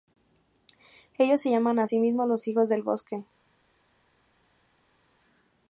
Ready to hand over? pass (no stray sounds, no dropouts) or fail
pass